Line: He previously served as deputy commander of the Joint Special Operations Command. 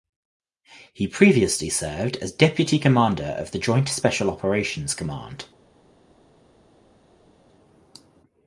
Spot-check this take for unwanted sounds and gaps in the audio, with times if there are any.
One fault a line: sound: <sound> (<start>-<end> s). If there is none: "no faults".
no faults